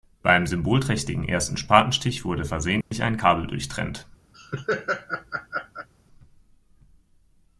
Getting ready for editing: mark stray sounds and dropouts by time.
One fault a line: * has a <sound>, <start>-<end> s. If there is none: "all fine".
* has a dropout, 2.8-2.9 s
* has a laugh, 4.3-5.9 s